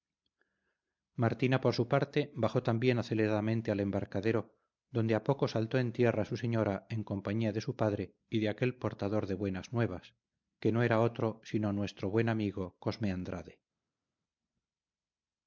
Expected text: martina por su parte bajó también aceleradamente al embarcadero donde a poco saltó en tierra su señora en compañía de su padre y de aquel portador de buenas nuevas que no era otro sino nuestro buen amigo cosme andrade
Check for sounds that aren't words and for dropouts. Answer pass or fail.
pass